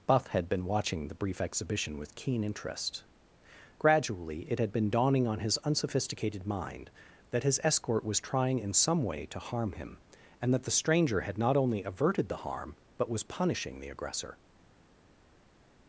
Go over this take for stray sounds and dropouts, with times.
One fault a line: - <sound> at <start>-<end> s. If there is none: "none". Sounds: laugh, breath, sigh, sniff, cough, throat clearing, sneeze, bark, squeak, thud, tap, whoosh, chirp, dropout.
none